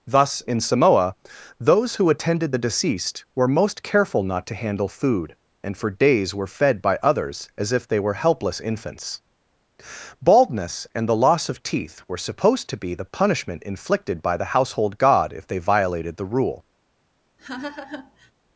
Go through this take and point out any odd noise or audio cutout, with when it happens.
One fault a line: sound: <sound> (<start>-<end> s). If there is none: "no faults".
sound: laugh (17.4-18.3 s)